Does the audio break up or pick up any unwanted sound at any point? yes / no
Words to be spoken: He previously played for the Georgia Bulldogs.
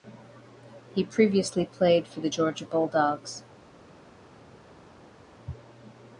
no